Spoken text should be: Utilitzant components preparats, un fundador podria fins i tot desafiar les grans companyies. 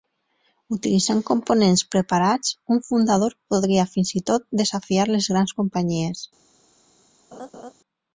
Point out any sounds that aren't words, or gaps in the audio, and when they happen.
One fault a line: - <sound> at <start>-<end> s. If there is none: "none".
- laugh at 7.3-7.7 s